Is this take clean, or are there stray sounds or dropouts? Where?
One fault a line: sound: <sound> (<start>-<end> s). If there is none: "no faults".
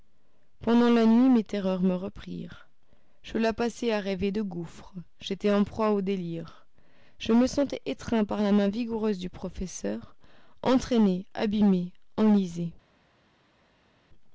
no faults